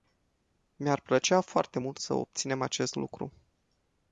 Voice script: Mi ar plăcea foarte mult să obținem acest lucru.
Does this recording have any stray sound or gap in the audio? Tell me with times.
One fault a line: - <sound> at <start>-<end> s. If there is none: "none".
none